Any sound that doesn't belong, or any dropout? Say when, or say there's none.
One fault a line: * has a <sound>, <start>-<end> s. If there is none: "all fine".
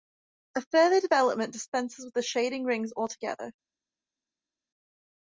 all fine